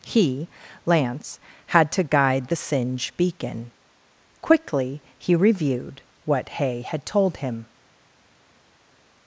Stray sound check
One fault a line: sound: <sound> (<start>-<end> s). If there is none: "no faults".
no faults